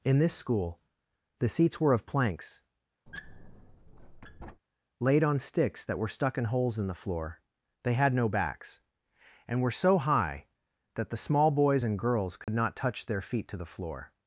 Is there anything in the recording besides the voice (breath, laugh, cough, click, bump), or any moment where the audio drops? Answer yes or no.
yes